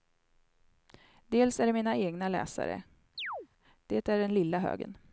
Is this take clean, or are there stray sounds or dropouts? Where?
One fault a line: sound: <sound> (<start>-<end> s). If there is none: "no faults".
sound: chirp (3.2-3.5 s)